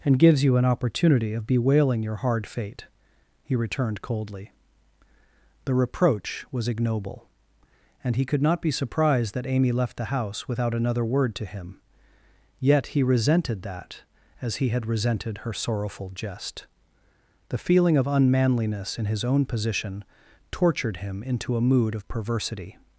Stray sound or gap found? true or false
false